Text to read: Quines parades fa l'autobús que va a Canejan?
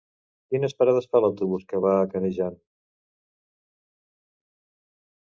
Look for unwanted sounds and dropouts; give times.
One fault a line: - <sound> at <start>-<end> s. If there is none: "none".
none